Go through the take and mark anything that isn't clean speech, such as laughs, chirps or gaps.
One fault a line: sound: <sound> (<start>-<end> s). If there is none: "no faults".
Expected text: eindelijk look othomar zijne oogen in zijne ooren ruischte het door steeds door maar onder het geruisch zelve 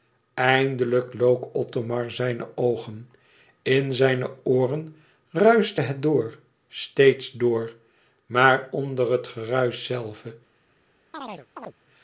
sound: chirp (11.1-11.7 s)